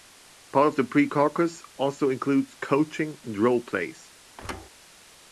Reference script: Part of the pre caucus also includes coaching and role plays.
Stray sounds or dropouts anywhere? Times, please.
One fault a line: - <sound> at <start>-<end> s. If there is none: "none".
- thud at 4.4-4.7 s